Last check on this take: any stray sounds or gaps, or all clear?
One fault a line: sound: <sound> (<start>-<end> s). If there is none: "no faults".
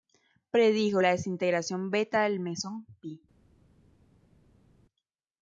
no faults